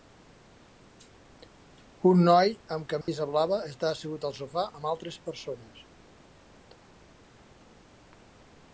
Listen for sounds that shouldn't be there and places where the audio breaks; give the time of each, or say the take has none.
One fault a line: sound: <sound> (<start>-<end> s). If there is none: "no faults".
sound: dropout (3.0-3.1 s)